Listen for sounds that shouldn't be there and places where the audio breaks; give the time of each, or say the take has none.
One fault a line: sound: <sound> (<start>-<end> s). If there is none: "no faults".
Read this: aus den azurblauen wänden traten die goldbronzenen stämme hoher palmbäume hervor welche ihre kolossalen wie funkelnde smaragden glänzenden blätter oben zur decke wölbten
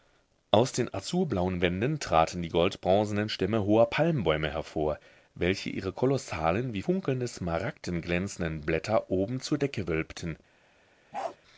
sound: bark (11.1-11.4 s)